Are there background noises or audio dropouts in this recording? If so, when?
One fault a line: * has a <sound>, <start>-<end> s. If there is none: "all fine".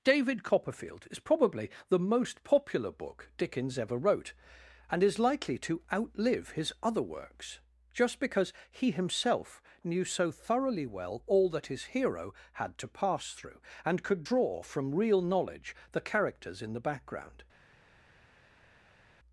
all fine